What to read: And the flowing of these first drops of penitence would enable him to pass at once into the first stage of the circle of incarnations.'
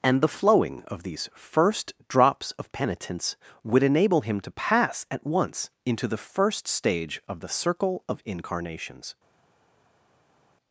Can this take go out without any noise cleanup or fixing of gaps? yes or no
yes